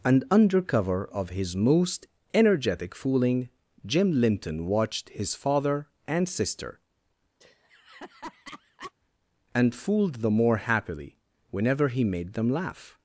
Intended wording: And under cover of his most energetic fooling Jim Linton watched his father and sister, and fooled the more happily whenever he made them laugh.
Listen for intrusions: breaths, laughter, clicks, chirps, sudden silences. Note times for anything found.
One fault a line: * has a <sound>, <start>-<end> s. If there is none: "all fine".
* has a laugh, 7.4-8.9 s